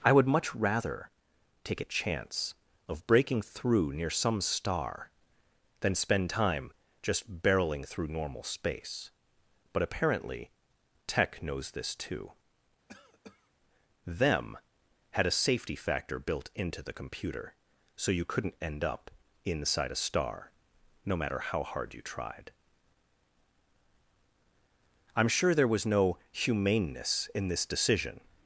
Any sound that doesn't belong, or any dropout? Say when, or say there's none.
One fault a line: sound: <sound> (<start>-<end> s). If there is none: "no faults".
sound: cough (12.9-13.5 s)